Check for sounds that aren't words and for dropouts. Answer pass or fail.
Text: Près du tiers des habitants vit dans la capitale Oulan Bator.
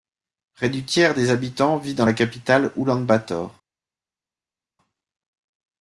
pass